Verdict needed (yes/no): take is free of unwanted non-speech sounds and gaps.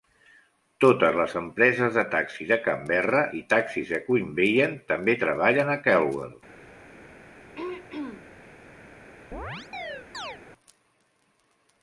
no